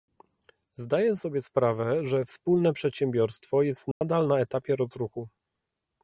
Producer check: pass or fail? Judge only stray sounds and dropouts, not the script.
fail